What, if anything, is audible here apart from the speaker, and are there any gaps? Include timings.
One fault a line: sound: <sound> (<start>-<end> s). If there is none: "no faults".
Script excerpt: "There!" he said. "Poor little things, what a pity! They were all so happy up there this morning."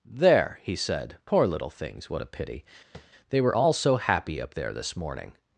sound: tap (2.9-3.1 s)